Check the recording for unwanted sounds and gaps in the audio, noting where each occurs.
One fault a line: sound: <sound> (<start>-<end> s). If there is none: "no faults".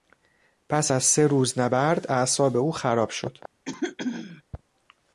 sound: throat clearing (3.6-4.4 s)